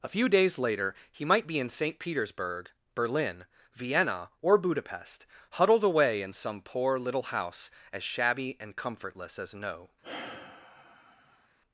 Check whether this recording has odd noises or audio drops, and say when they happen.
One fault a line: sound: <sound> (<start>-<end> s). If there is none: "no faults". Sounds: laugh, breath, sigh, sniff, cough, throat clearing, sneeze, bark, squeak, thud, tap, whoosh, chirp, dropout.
sound: sigh (10.0-11.5 s)